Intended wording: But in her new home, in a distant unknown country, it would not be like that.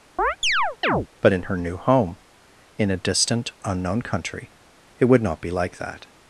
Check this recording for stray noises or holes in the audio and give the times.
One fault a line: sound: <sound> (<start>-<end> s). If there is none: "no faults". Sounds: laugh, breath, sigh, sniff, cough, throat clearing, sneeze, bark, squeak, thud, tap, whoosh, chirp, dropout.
sound: chirp (0.2-1.1 s)